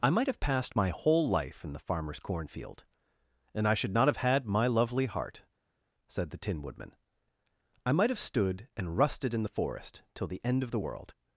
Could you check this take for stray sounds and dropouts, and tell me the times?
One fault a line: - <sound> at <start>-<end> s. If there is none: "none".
none